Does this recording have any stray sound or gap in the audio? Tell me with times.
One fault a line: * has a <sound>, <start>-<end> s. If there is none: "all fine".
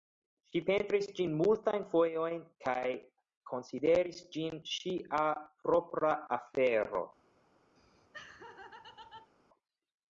* has a laugh, 7.8-9.3 s